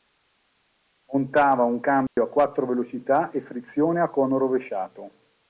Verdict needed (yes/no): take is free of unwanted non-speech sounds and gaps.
no